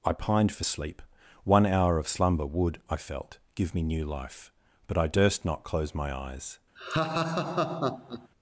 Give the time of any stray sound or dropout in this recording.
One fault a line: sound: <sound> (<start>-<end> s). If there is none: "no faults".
sound: laugh (6.8-8.3 s)